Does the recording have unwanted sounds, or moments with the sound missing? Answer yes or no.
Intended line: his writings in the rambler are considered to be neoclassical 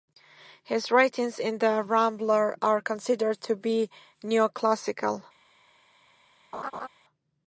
yes